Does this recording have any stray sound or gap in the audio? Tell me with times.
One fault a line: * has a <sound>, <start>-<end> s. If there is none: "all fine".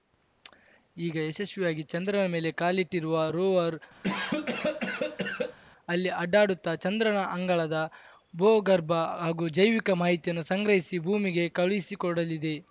* has a cough, 4.0-5.6 s